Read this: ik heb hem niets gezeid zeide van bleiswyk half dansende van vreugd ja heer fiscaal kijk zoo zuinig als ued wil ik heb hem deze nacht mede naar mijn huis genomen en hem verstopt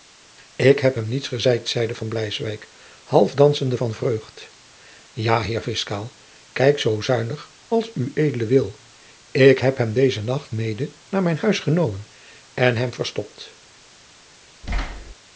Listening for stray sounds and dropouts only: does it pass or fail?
fail